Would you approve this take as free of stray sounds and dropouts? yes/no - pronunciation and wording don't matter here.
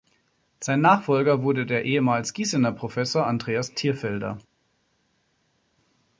yes